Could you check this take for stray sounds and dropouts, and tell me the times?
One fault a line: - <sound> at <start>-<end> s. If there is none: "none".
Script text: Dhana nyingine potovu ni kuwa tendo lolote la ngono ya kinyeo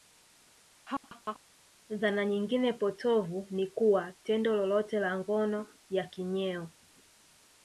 - laugh at 0.9-1.4 s